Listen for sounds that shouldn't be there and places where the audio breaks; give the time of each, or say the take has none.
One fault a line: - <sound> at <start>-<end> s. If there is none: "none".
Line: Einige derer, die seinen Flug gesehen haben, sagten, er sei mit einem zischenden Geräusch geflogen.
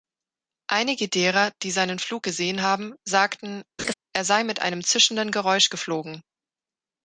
- laugh at 3.8-3.9 s